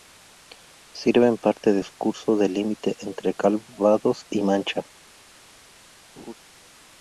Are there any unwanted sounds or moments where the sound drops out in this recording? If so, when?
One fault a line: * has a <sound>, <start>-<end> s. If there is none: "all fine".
* has a laugh, 6.2-6.4 s